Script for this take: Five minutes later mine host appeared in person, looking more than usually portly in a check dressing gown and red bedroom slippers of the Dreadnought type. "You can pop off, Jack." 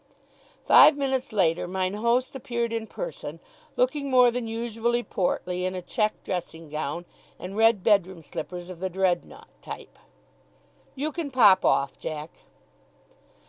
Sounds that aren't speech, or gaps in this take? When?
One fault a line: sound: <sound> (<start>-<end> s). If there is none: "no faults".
no faults